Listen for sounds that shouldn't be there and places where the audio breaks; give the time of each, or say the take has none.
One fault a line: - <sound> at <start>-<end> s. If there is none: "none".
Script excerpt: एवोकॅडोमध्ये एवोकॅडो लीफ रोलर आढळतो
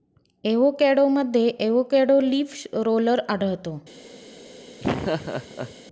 - laugh at 4.8-5.7 s